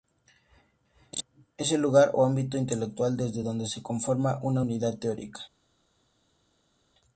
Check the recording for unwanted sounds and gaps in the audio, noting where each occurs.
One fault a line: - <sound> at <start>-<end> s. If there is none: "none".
none